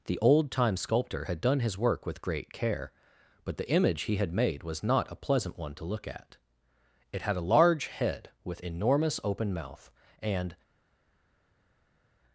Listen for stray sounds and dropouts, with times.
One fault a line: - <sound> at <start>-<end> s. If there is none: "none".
none